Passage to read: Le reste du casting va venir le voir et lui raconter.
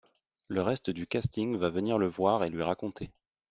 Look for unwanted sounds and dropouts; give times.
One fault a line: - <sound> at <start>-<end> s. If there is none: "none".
none